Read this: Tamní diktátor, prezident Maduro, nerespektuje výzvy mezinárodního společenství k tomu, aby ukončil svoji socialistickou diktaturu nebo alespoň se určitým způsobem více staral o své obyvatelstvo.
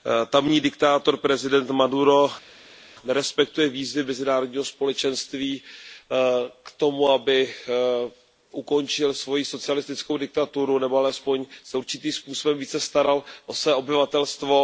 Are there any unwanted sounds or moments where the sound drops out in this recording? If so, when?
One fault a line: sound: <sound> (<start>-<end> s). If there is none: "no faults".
no faults